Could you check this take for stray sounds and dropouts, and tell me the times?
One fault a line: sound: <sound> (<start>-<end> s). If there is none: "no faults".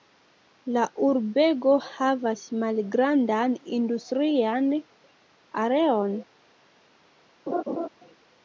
sound: laugh (7.5-7.9 s)